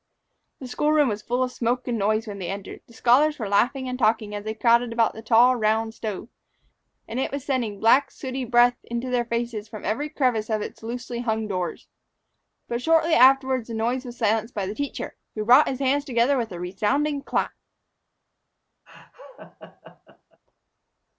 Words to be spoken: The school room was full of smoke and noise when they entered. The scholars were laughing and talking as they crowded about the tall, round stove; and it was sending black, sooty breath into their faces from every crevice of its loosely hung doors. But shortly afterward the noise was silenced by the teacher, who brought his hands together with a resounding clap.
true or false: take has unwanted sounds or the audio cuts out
true